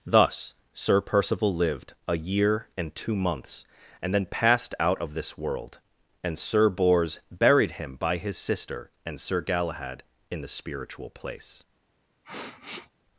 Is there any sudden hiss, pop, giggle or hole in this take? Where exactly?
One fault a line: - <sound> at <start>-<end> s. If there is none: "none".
- sniff at 12.2-12.9 s